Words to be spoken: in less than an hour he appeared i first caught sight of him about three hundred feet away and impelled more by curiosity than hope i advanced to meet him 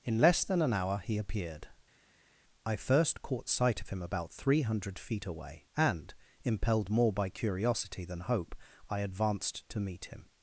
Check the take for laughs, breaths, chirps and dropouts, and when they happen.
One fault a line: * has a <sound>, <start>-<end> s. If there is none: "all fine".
all fine